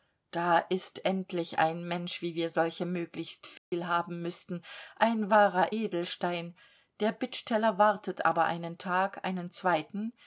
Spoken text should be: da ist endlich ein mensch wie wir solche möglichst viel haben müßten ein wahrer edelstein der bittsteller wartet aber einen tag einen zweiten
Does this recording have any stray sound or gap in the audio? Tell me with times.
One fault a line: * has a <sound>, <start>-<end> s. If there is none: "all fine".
* has a dropout, 3.6-3.7 s